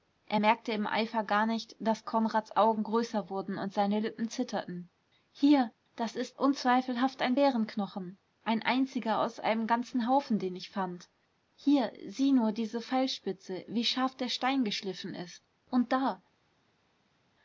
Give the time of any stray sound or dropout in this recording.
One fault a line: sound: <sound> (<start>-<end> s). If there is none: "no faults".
no faults